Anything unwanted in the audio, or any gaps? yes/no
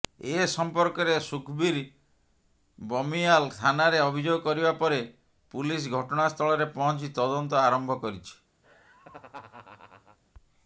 yes